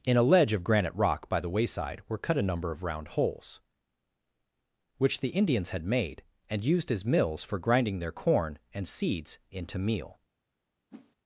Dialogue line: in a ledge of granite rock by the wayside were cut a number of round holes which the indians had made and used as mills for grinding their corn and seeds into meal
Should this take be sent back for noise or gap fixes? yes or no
yes